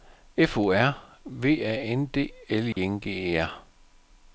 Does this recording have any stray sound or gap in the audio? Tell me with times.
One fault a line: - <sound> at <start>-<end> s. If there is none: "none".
- dropout at 2.7-2.8 s